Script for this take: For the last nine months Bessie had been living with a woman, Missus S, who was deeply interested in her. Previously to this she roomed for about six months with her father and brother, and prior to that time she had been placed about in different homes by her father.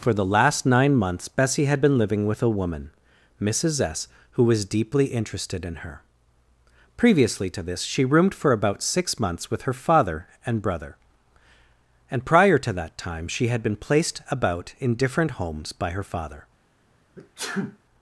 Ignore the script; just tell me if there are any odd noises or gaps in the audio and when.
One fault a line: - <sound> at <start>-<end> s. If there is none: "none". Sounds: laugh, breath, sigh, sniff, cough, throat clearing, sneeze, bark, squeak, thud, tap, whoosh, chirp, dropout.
- sneeze at 17.1-17.8 s